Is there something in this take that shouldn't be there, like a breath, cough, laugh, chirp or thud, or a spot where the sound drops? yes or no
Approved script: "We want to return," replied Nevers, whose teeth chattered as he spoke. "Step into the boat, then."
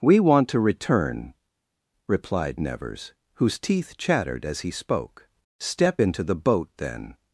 no